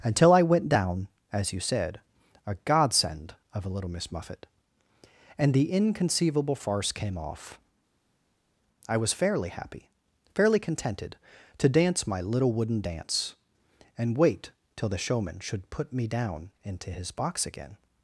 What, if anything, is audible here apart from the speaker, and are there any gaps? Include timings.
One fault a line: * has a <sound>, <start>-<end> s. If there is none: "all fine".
all fine